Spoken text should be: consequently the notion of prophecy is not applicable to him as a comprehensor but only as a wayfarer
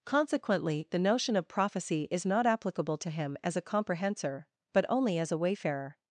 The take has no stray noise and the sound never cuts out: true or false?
true